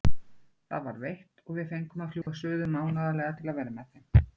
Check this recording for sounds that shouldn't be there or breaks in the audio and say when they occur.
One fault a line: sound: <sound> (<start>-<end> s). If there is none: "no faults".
sound: dropout (2.2-2.3 s)